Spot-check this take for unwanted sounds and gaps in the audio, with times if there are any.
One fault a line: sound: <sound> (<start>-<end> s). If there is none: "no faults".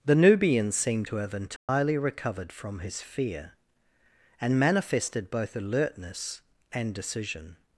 sound: dropout (1.6-1.7 s)